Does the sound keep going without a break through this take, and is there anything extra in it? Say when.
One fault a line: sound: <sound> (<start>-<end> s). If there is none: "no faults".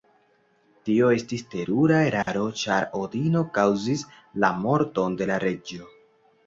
sound: dropout (2.2-2.3 s)